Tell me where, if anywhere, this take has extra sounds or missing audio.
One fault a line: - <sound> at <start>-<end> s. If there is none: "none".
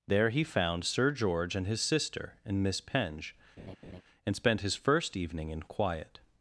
- laugh at 3.6-4.0 s